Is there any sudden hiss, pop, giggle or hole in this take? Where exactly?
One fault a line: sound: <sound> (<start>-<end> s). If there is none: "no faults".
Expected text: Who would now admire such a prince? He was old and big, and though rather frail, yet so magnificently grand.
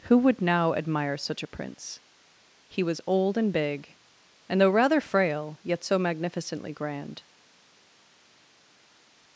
no faults